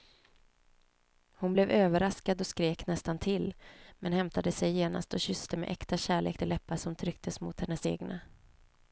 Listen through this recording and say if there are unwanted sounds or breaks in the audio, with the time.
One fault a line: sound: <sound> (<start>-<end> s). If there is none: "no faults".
no faults